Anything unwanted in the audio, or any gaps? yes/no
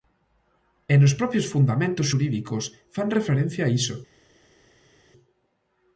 no